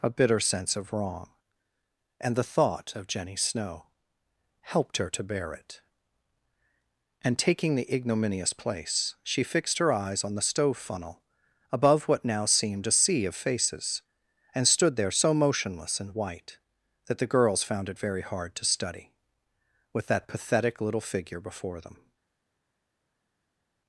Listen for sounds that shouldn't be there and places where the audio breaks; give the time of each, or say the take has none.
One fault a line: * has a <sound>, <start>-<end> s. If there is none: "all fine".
all fine